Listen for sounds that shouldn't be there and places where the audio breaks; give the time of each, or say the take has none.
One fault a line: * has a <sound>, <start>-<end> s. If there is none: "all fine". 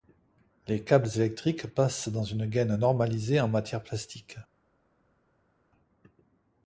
all fine